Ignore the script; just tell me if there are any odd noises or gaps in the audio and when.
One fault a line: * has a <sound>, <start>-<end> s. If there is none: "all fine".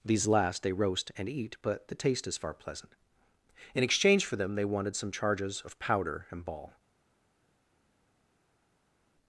all fine